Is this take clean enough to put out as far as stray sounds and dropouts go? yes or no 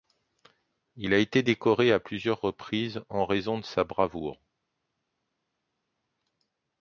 yes